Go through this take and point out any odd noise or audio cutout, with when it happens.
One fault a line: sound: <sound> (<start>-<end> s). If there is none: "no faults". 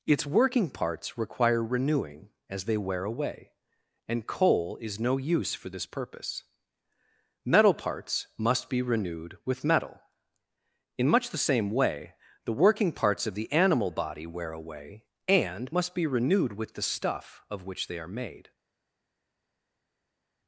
no faults